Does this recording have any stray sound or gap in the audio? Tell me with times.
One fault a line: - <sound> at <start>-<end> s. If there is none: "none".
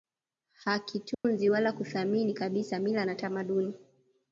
- dropout at 1.1-1.2 s